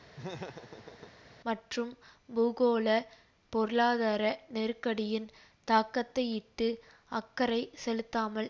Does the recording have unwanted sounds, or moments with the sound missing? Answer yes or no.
yes